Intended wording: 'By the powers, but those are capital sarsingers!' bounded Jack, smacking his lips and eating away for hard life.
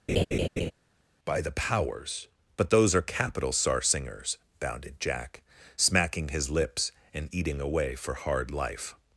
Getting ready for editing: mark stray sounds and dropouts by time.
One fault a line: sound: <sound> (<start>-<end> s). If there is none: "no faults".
sound: laugh (0.1-0.7 s)